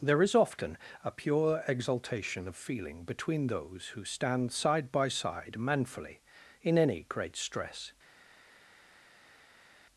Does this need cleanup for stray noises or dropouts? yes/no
no